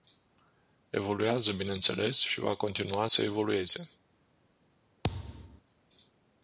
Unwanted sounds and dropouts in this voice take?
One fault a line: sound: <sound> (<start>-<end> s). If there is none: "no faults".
sound: thud (5.0-5.6 s)